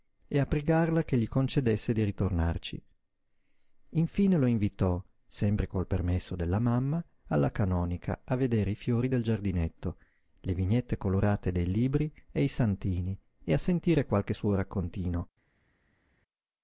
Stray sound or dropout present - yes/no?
no